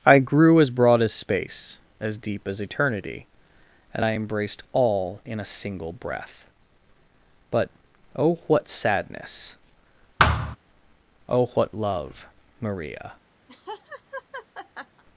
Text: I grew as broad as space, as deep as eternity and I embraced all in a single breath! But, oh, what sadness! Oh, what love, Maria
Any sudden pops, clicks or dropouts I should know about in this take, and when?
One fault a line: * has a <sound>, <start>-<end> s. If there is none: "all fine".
* has a thud, 10.2-10.6 s
* has a laugh, 13.5-15.0 s